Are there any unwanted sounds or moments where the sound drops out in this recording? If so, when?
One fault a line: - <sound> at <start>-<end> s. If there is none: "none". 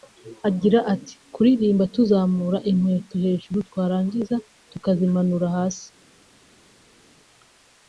none